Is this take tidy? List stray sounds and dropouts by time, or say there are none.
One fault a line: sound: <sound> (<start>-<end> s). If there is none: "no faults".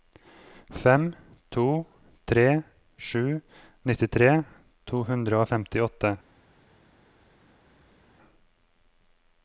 no faults